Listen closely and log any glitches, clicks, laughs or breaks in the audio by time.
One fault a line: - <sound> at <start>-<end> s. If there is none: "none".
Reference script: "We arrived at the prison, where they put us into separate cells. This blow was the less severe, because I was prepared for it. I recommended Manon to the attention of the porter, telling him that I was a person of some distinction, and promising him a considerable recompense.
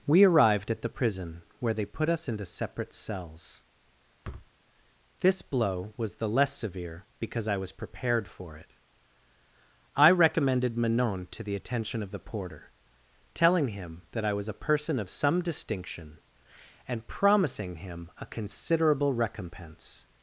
- thud at 4.2-4.5 s